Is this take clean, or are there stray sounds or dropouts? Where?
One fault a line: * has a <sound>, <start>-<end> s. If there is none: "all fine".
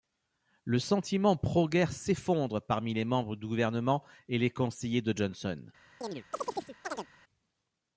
* has a chirp, 6.0-7.1 s